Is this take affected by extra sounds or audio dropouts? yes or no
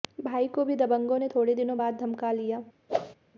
yes